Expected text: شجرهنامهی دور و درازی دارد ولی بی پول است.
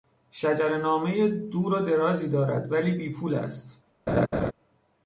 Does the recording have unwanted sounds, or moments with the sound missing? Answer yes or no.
yes